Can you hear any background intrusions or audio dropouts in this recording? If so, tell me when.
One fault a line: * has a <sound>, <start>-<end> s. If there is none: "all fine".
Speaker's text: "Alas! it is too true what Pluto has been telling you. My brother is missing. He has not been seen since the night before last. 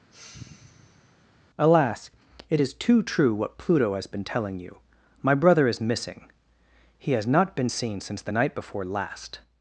* has a sigh, 0.1-1.3 s